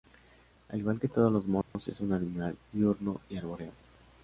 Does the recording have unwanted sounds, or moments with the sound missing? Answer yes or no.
yes